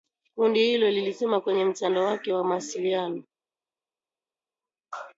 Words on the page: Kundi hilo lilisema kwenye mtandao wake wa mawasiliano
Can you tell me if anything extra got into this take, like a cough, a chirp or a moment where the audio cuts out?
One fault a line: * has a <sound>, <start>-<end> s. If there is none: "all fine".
all fine